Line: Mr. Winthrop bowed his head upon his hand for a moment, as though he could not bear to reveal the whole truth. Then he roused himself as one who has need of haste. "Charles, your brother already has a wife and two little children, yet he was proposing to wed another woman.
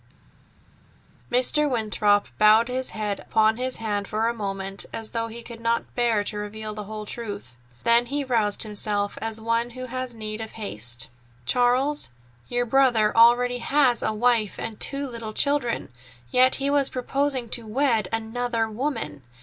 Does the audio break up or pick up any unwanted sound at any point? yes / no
no